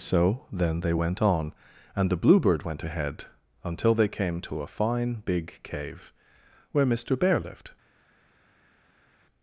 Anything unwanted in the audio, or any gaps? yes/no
no